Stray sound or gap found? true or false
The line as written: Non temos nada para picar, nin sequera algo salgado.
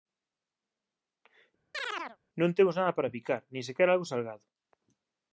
true